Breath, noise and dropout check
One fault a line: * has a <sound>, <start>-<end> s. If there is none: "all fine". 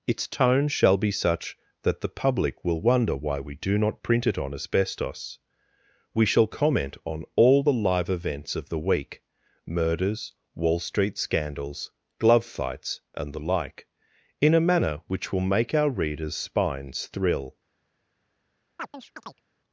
* has a chirp, 18.8-19.4 s